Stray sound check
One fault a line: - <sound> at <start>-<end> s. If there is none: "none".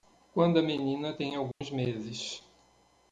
- dropout at 1.5-1.6 s